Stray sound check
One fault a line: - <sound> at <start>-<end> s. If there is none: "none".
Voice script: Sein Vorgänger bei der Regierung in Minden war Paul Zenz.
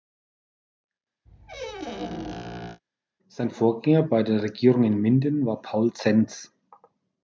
- squeak at 1.3-2.8 s